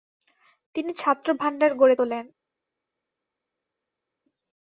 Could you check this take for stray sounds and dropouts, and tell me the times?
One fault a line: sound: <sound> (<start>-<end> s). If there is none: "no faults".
no faults